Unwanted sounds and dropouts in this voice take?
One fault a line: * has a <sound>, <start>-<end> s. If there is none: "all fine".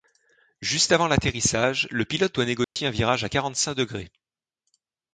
* has a dropout, 2.6-2.8 s